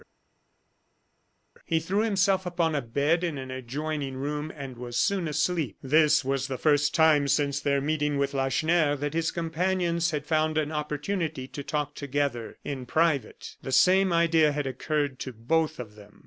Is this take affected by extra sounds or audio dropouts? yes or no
no